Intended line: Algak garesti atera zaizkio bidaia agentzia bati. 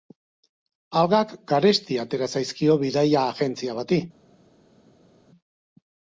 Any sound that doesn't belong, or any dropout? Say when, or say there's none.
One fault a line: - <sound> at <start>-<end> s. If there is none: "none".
none